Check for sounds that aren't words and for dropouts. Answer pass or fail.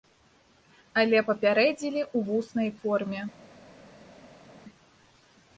pass